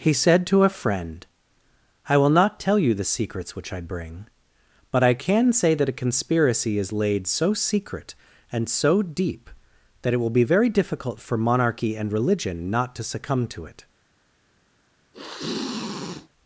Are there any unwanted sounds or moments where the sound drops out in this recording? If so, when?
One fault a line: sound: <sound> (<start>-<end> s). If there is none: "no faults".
sound: sniff (15.1-16.3 s)